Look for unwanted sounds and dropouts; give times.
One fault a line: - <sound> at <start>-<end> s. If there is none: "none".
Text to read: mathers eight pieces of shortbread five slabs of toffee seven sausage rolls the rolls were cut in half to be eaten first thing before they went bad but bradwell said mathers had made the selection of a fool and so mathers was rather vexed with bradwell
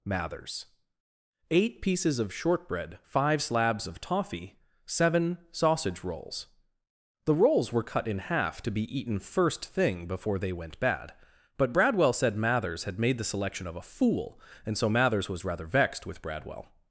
none